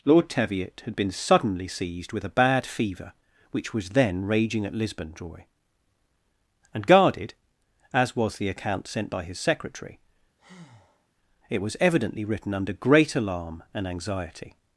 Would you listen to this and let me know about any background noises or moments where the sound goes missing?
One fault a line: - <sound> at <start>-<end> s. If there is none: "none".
- breath at 10.4-11.1 s